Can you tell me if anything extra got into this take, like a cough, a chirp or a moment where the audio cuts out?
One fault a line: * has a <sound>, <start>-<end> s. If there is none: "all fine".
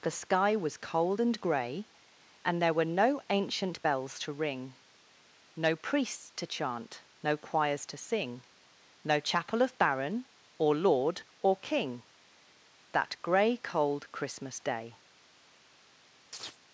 * has a chirp, 16.3-16.6 s